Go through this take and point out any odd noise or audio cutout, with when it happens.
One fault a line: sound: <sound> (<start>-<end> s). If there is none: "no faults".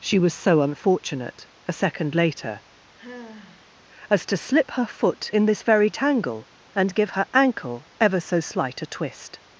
sound: sigh (3.0-3.8 s)